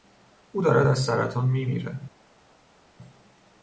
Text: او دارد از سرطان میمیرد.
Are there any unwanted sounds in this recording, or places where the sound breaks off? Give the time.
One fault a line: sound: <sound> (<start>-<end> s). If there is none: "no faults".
no faults